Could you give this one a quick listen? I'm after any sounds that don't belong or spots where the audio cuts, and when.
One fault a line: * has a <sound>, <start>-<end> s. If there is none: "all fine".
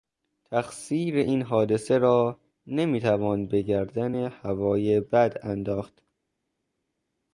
all fine